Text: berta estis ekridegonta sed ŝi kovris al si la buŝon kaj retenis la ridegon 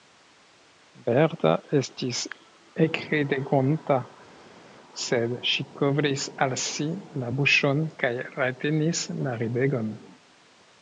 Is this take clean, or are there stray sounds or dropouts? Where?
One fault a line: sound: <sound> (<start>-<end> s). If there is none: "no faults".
no faults